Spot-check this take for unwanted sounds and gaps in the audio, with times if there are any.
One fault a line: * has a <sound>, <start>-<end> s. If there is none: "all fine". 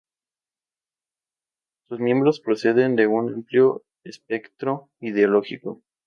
all fine